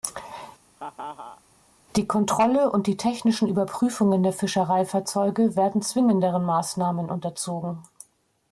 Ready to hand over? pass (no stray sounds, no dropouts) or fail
fail